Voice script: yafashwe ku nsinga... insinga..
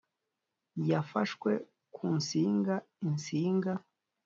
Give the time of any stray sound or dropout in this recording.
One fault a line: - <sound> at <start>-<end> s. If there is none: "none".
none